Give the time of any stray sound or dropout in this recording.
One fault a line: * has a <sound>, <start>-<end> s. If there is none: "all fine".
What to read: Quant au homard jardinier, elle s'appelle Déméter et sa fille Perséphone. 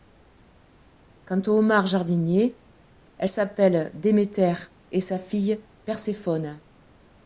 all fine